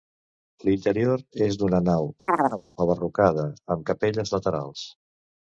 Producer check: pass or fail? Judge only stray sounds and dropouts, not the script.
fail